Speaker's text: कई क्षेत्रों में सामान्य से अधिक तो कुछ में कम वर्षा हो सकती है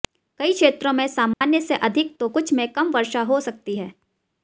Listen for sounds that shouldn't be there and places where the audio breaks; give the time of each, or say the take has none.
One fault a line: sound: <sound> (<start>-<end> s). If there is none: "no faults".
sound: dropout (1.3-1.4 s)